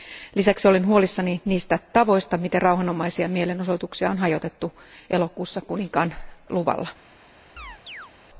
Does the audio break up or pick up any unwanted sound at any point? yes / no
yes